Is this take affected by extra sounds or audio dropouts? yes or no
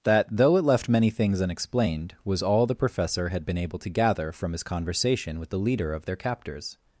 no